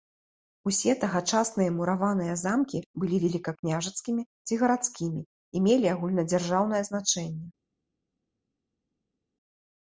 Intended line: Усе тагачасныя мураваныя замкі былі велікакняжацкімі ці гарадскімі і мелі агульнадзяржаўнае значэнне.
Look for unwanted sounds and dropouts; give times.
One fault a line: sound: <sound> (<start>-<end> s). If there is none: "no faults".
no faults